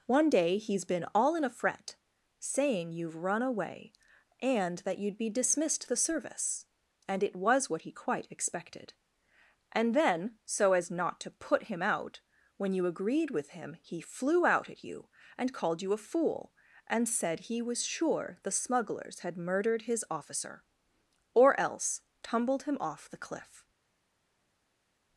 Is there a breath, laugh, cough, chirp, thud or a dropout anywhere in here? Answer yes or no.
no